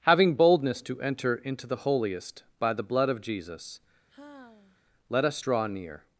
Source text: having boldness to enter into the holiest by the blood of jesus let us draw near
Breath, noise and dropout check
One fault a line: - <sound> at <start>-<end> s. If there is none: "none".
- sigh at 4.1-4.8 s